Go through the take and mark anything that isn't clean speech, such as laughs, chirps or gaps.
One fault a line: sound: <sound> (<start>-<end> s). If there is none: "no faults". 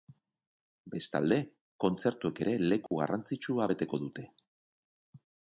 sound: dropout (2.9-2.9 s)